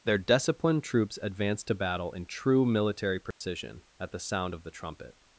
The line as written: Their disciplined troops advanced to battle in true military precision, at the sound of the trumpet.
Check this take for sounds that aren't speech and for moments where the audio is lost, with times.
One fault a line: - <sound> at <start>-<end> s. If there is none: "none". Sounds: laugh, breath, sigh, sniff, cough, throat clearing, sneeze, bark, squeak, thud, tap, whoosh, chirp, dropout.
- dropout at 3.3-3.4 s